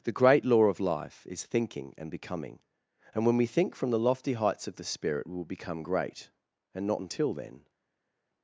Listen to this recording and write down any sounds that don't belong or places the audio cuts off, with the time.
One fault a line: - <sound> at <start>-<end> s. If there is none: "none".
none